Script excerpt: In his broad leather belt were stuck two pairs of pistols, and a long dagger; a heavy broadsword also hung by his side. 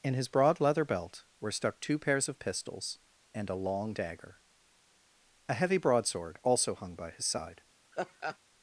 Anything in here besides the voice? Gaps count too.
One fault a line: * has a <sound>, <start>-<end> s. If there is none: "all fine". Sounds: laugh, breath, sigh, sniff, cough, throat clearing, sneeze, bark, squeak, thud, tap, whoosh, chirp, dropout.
* has a laugh, 7.9-8.4 s